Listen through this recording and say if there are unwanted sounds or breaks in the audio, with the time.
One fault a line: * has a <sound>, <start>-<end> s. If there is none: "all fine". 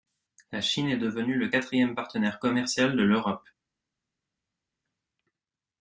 all fine